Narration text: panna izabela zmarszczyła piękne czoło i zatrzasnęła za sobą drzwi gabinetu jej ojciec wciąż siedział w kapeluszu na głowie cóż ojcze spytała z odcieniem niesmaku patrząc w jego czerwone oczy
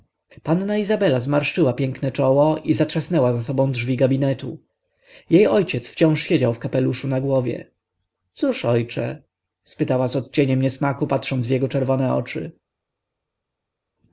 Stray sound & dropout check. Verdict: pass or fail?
pass